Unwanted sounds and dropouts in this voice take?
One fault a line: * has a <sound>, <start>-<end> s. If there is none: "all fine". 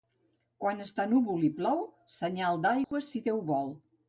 * has a dropout, 2.8-2.9 s